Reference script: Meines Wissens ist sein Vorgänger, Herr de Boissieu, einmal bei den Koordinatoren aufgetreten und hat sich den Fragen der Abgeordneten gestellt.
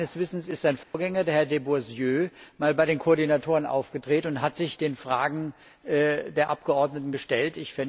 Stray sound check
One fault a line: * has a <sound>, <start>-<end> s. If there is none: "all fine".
* has a dropout, 0.8-0.9 s